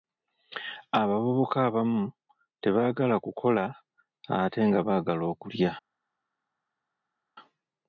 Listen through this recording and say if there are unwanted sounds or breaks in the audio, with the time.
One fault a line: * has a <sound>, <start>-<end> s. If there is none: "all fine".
all fine